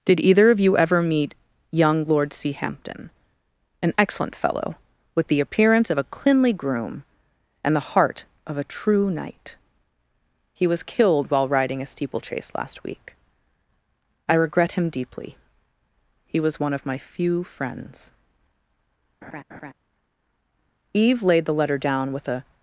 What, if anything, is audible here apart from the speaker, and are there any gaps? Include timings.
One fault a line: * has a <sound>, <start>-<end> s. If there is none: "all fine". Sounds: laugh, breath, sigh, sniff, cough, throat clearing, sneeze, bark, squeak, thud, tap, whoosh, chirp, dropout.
* has a laugh, 19.2-19.7 s